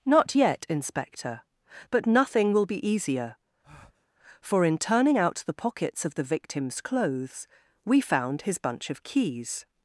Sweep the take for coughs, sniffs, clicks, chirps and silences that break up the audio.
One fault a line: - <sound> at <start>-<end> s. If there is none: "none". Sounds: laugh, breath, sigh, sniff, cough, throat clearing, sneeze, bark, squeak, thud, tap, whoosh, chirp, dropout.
- breath at 3.6-4.1 s